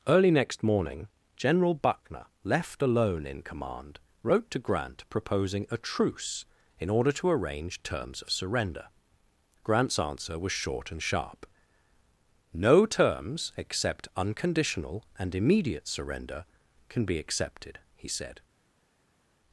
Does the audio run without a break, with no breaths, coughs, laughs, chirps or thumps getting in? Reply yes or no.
yes